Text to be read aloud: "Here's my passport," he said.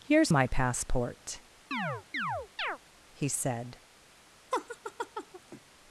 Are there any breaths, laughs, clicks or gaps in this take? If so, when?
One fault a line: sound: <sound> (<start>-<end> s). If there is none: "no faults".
sound: chirp (1.7-2.8 s)
sound: laugh (4.5-5.6 s)